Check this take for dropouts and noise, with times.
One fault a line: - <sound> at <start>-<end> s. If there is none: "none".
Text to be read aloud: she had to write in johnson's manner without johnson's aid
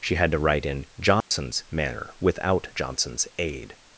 - dropout at 1.2-1.3 s